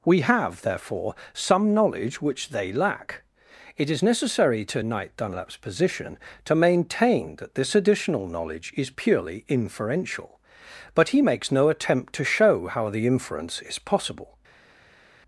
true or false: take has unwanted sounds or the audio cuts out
false